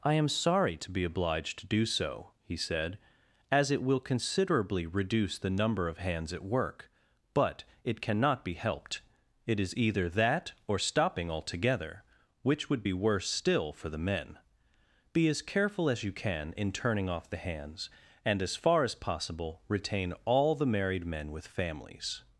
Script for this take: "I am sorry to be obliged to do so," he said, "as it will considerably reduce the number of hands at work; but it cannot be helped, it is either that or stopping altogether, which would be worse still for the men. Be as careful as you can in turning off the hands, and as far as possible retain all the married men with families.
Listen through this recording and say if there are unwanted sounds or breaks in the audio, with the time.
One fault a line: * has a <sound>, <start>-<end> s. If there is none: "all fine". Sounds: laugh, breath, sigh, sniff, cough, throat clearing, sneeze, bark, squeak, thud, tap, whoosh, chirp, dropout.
all fine